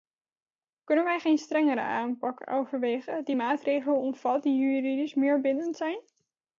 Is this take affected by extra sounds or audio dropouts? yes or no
no